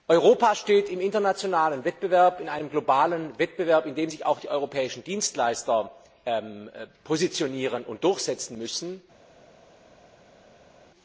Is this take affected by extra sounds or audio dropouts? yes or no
no